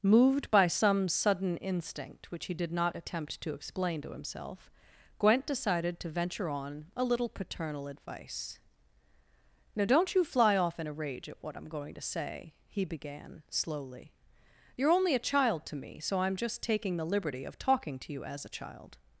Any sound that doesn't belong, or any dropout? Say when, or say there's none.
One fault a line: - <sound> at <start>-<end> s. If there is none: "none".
none